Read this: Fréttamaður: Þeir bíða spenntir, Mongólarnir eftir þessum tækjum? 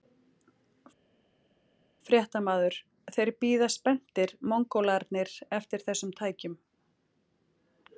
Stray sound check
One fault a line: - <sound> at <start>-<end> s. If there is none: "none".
none